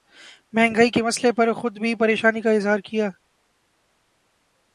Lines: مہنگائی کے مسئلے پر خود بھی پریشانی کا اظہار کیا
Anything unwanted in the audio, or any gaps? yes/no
no